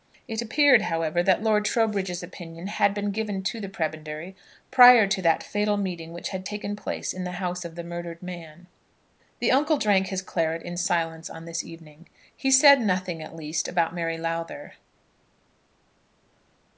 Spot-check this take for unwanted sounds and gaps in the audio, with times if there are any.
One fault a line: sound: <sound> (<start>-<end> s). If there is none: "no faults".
no faults